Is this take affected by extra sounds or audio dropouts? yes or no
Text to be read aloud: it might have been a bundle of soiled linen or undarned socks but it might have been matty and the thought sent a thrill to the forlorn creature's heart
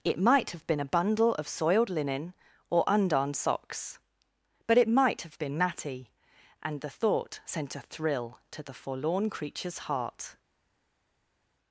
no